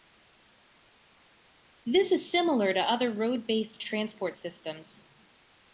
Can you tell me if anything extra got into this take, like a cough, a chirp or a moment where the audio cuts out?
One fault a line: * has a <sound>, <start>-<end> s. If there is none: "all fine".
all fine